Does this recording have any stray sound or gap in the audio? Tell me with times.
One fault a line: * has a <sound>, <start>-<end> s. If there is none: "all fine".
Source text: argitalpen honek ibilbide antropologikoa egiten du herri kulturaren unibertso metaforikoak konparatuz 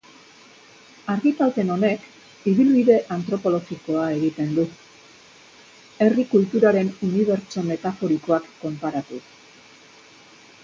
all fine